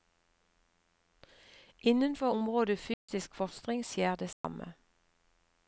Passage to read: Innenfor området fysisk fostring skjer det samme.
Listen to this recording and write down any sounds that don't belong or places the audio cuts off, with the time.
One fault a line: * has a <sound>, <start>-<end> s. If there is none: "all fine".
* has a dropout, 2.9-3.1 s
* has a dropout, 4.3-4.4 s